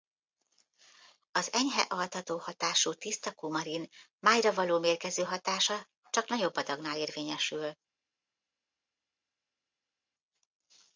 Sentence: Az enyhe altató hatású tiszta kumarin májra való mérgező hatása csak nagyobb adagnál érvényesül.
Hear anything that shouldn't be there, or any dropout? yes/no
no